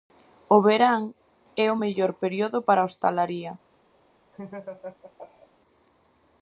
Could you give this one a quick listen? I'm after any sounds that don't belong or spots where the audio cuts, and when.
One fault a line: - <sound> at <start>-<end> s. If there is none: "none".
- laugh at 4.3-5.5 s